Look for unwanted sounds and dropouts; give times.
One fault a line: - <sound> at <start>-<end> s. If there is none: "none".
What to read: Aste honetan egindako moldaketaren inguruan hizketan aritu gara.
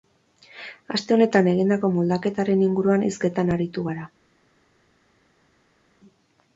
none